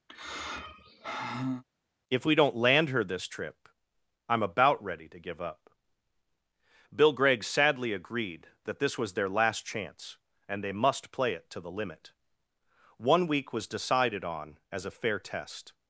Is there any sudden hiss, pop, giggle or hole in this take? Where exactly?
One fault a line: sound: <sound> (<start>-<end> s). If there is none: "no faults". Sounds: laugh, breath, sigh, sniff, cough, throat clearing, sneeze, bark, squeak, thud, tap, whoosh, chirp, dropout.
sound: sigh (0.1-1.6 s)